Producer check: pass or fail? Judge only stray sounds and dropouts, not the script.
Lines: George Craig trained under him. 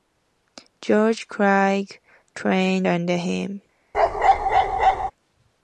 fail